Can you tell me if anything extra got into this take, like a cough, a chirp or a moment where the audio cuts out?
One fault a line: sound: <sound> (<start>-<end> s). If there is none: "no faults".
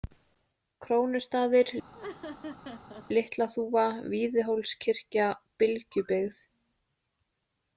sound: laugh (1.9-3.1 s)